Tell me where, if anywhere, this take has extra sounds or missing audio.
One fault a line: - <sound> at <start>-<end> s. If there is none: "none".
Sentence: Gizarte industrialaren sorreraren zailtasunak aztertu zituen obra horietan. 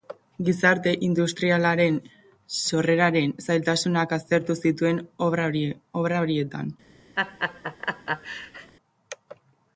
- laugh at 7.2-8.7 s